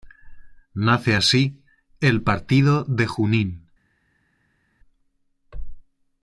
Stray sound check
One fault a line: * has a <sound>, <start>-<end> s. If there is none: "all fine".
all fine